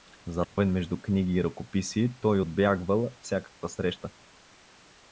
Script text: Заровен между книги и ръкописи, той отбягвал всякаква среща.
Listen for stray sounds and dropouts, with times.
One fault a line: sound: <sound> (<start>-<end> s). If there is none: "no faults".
sound: dropout (0.4-0.6 s)